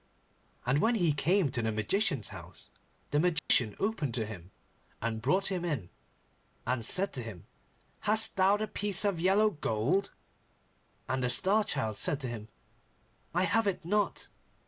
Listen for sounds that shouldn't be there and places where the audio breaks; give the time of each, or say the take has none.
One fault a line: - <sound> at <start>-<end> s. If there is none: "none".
- dropout at 3.4-3.5 s